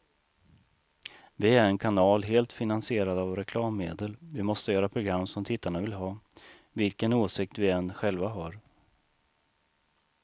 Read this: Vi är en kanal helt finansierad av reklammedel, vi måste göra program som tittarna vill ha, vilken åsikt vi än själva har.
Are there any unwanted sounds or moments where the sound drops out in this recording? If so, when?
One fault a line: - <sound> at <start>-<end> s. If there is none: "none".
none